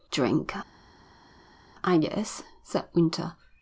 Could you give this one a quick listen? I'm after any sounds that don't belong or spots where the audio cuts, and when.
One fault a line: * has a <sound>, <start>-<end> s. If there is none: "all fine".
all fine